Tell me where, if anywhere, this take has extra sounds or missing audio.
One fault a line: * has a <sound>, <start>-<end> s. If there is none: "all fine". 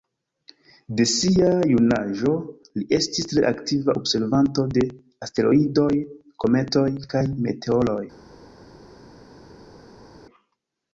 all fine